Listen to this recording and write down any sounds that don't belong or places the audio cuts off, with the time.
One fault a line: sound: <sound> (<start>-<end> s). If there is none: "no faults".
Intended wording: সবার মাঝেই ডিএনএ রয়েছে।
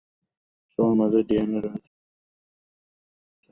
no faults